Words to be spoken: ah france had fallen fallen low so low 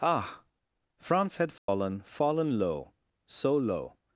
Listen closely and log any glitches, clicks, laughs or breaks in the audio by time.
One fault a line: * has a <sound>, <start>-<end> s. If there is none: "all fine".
* has a dropout, 1.6-1.7 s